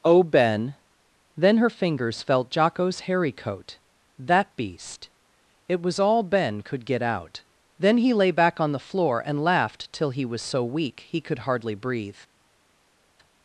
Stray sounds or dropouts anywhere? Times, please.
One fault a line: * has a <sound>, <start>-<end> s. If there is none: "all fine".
all fine